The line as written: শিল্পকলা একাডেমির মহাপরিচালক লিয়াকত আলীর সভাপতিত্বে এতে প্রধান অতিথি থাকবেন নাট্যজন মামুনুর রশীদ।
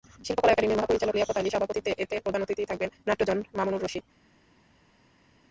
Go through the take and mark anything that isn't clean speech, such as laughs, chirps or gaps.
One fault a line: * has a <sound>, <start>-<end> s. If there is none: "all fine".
all fine